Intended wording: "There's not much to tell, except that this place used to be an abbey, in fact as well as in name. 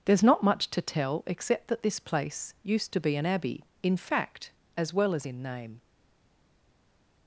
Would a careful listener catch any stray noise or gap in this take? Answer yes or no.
no